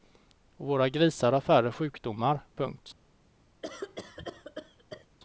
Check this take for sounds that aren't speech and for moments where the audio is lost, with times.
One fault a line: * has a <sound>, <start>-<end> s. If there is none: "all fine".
* has a cough, 3.6-5.1 s